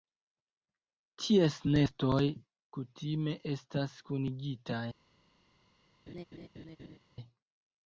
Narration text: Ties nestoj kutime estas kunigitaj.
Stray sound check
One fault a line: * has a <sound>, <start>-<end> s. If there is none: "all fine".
* has a laugh, 6.1-7.0 s